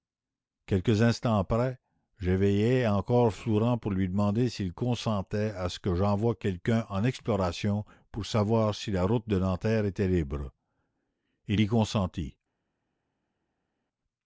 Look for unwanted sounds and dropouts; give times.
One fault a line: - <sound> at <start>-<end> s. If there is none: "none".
none